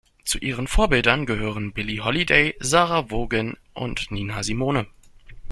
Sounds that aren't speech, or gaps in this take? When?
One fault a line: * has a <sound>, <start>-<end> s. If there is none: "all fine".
all fine